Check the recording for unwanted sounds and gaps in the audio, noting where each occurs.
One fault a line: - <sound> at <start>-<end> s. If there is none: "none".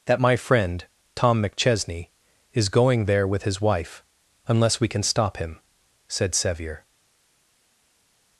none